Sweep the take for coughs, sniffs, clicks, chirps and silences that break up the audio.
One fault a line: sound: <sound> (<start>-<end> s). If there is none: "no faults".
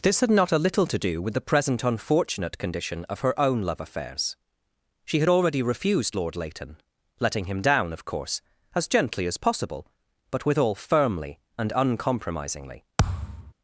sound: thud (13.0-13.5 s)